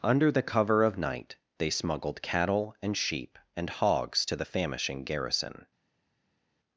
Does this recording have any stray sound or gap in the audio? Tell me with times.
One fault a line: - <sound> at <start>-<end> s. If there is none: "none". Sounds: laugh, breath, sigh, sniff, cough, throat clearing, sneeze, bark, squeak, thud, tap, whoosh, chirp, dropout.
none